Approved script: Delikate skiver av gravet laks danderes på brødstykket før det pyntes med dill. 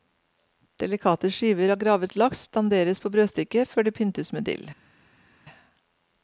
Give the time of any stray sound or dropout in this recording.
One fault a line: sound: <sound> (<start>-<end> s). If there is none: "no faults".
no faults